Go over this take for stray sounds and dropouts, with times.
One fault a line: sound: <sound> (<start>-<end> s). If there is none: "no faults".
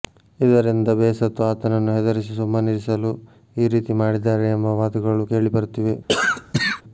sound: cough (6.1-6.8 s)